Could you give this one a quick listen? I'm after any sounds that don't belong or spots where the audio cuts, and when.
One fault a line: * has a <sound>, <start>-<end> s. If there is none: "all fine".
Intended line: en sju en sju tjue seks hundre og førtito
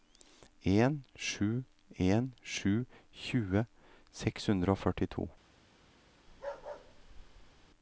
* has a bark, 6.3-7.7 s